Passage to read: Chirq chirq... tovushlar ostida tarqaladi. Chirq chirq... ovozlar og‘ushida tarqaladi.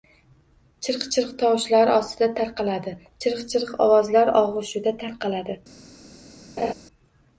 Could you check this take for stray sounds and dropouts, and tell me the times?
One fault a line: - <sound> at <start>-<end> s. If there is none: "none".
- laugh at 6.6-6.7 s